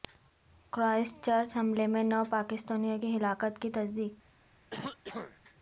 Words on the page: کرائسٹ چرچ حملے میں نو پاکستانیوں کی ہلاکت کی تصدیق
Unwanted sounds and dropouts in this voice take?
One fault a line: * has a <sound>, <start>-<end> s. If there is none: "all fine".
* has a throat clearing, 4.7-5.4 s